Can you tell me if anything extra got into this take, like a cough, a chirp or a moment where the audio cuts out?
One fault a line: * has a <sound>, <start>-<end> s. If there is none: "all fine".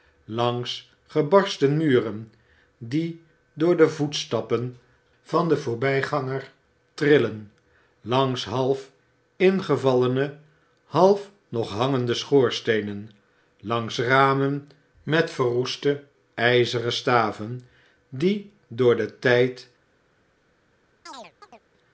* has a chirp, 21.1-21.6 s